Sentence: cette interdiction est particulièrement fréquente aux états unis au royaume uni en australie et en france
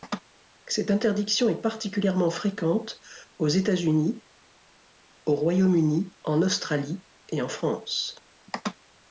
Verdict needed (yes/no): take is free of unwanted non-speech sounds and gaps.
yes